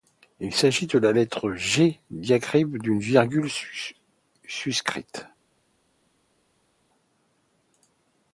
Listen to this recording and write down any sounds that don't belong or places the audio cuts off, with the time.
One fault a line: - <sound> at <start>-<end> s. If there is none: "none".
none